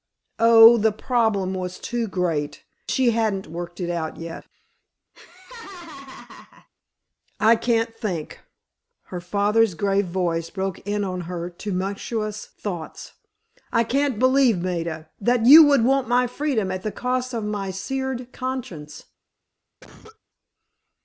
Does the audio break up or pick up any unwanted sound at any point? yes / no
yes